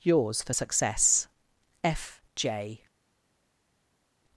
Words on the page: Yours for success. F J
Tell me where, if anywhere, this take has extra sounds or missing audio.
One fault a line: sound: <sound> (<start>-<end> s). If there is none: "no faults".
no faults